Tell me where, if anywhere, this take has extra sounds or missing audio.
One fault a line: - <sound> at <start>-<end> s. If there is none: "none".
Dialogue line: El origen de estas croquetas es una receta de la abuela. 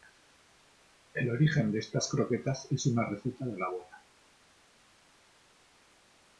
none